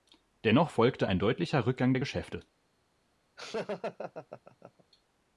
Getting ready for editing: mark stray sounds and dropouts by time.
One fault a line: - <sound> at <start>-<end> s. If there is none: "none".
- laugh at 3.4-4.8 s